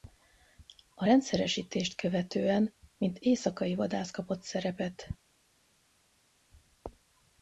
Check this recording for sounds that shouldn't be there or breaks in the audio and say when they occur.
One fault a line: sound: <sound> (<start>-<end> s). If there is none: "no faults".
no faults